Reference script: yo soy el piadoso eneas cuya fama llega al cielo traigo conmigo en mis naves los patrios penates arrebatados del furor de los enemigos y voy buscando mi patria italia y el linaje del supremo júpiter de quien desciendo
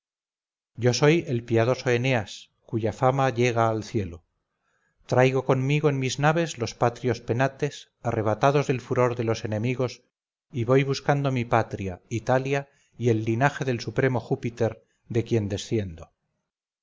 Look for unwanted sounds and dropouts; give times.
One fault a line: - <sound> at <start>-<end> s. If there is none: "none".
none